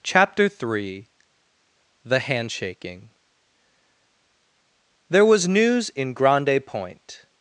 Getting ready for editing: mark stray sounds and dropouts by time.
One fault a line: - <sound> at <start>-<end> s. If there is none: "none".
none